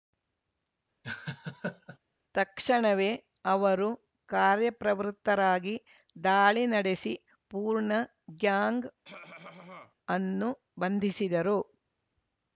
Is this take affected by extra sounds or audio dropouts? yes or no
yes